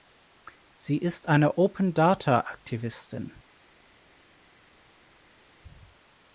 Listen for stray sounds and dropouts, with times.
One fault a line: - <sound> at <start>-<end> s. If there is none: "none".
none